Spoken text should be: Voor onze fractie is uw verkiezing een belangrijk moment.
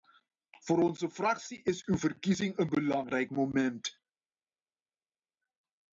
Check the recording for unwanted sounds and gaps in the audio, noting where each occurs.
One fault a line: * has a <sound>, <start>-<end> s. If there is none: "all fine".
all fine